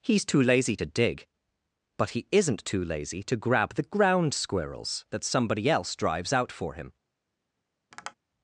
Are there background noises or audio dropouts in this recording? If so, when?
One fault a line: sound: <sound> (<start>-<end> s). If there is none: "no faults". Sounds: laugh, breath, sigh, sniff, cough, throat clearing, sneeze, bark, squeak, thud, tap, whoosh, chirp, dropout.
sound: tap (7.9-8.1 s)